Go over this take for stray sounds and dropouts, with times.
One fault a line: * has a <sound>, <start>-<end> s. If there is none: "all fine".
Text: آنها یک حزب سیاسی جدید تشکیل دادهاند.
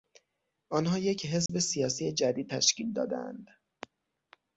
* has a dropout, 1.5-1.5 s